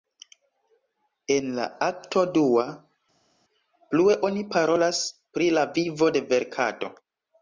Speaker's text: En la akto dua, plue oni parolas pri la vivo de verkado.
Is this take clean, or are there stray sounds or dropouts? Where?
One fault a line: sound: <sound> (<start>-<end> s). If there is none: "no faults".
no faults